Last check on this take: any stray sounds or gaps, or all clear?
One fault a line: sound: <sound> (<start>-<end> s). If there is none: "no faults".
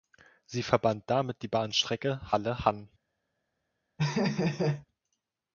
sound: laugh (4.0-4.9 s)